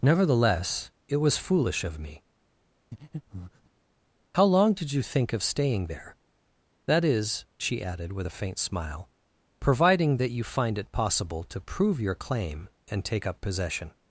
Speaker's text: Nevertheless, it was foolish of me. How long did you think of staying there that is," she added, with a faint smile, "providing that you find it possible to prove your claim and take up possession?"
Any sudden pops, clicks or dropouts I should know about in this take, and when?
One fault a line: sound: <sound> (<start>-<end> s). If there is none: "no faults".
sound: breath (2.9-3.7 s)